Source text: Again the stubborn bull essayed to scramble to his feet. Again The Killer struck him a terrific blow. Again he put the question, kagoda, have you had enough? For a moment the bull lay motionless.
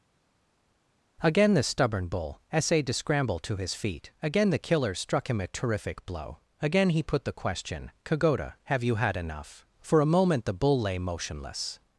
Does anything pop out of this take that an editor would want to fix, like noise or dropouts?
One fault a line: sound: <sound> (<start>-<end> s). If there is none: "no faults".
no faults